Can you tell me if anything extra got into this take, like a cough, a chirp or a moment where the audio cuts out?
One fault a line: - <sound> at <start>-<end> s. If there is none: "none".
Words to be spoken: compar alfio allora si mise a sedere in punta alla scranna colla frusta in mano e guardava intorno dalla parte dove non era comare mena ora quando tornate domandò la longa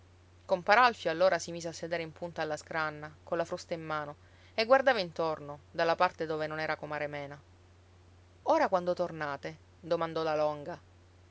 none